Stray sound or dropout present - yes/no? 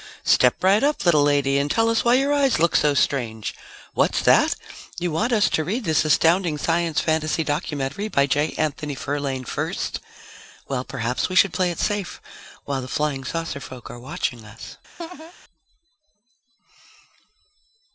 yes